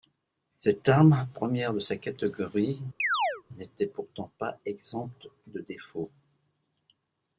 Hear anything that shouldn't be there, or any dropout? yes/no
yes